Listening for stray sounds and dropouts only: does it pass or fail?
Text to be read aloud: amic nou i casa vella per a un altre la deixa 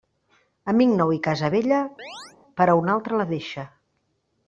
fail